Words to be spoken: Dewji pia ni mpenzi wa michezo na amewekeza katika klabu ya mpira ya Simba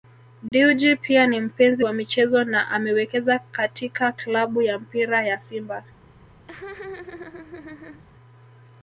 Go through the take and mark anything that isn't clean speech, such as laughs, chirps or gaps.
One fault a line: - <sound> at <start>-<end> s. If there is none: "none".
- dropout at 0.5-0.5 s
- laugh at 6.5-8.0 s